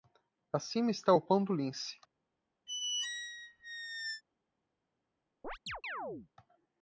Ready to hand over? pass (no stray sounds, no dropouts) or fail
fail